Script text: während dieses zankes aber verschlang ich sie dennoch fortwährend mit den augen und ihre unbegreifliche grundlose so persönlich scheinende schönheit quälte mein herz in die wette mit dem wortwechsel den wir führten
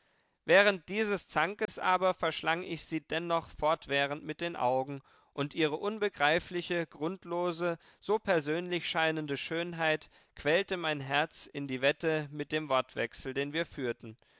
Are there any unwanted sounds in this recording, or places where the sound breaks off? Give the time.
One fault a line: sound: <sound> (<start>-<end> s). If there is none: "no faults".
sound: dropout (1.7-1.7 s)